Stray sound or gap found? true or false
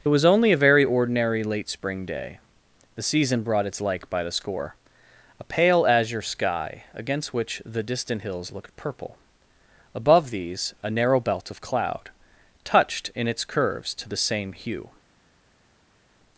false